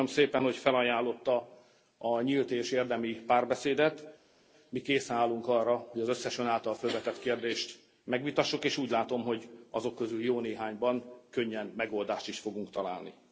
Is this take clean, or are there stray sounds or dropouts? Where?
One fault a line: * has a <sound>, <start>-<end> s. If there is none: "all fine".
all fine